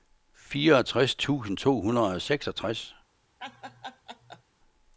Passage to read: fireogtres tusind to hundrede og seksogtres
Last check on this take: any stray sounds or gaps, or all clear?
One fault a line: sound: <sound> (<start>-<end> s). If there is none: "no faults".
sound: laugh (3.4-4.4 s)